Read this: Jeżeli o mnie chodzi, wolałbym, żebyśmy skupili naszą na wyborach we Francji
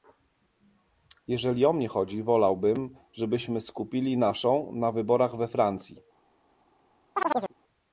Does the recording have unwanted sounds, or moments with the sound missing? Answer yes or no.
yes